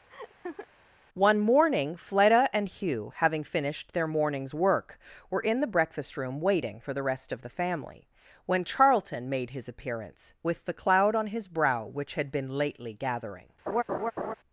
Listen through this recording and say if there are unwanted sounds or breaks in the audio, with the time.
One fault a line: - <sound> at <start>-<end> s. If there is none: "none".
- laugh at 0.1-0.7 s
- laugh at 13.7-14.3 s